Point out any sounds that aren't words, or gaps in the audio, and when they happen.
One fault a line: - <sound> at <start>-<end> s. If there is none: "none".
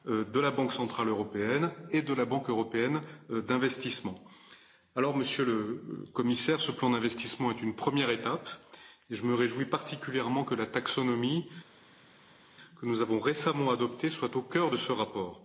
none